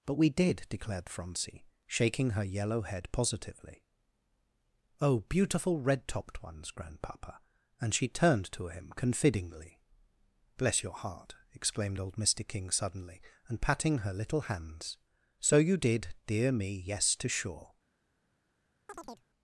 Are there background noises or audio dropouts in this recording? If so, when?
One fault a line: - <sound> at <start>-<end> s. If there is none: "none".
- chirp at 18.9-19.3 s